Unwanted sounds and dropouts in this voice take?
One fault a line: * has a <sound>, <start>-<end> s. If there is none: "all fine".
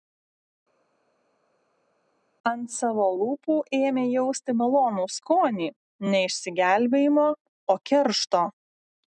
all fine